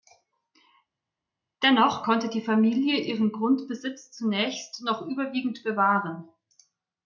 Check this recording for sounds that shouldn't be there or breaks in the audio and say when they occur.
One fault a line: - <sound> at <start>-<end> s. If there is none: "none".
none